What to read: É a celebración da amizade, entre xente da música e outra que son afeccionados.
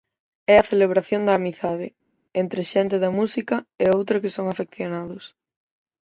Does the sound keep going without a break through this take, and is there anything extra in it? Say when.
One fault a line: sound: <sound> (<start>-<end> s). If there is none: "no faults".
no faults